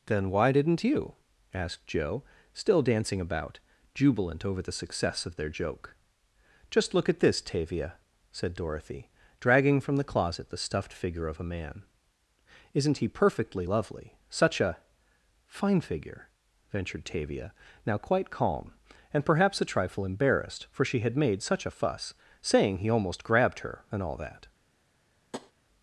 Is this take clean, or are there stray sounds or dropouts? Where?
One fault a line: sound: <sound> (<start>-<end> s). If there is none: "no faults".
sound: tap (25.3-25.5 s)